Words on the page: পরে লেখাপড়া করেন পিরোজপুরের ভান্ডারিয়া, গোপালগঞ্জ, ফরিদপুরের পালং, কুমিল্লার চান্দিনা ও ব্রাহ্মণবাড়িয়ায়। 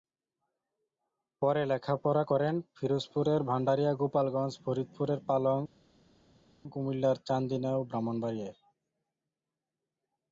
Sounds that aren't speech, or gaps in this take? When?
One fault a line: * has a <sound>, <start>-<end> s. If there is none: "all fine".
all fine